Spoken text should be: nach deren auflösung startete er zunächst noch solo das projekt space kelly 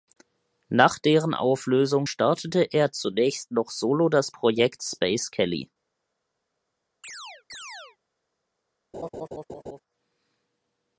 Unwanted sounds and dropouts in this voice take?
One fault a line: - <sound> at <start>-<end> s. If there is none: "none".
- chirp at 7.0-8.0 s
- laugh at 8.9-9.8 s